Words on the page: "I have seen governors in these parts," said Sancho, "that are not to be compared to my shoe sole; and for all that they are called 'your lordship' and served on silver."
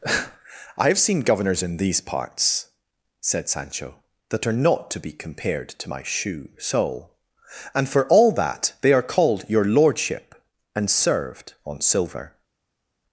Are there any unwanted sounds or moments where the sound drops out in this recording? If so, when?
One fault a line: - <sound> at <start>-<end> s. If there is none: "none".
none